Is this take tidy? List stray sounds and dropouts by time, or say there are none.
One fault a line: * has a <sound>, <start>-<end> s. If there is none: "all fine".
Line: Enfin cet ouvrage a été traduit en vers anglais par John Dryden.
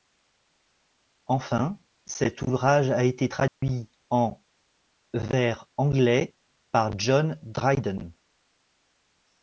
* has a dropout, 3.5-3.6 s